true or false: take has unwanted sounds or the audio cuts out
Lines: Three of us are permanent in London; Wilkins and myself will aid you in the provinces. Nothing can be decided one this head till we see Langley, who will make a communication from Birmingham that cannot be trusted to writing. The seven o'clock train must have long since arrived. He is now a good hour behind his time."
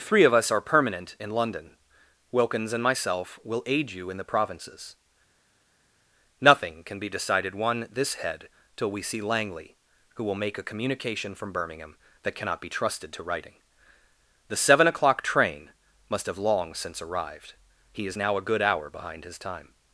false